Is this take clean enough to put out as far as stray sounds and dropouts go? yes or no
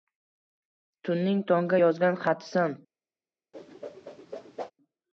no